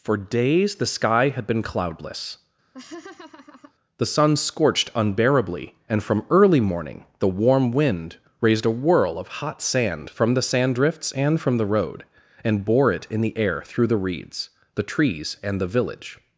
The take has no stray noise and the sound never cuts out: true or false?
false